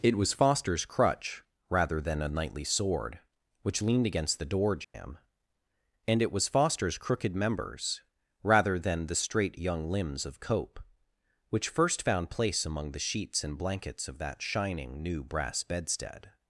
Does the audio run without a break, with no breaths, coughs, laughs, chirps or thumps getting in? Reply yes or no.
no